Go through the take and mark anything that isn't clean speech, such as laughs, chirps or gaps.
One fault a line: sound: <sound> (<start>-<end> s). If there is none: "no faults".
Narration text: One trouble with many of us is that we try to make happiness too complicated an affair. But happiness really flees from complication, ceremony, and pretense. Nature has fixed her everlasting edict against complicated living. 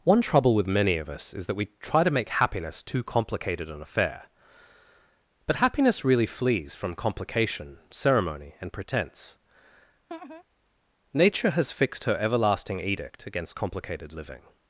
sound: laugh (10.1-10.4 s)